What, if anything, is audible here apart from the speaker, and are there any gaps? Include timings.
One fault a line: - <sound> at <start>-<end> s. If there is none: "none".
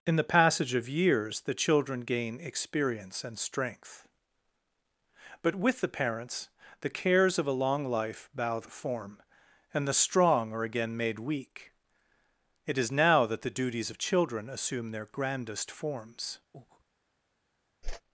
- breath at 16.5-16.8 s
- whoosh at 17.8-18.0 s